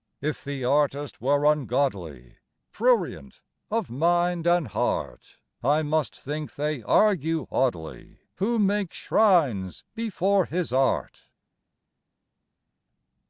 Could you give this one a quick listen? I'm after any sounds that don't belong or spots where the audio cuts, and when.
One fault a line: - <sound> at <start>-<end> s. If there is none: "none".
none